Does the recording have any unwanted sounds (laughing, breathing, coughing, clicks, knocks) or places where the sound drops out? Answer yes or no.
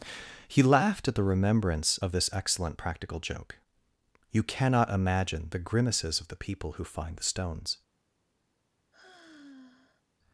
yes